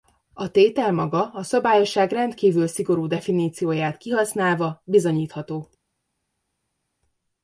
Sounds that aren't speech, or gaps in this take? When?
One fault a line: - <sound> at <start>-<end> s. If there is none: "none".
none